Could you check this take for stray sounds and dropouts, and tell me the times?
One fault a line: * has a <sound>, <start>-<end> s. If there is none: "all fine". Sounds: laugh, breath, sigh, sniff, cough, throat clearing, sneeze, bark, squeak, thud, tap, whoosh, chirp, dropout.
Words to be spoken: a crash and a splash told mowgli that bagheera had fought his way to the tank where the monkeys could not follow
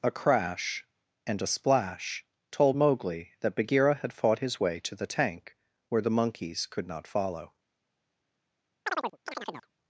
* has a chirp, 8.9-9.7 s